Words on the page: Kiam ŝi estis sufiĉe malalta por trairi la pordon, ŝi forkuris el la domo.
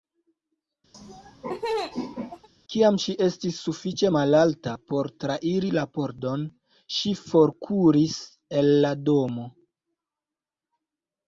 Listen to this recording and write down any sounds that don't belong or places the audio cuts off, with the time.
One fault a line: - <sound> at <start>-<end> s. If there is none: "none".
- laugh at 0.9-2.5 s